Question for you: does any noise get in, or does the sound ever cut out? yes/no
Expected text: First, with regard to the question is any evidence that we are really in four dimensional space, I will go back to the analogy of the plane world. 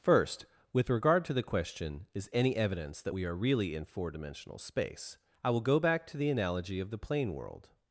no